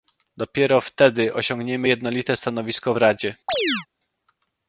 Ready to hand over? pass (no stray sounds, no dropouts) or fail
fail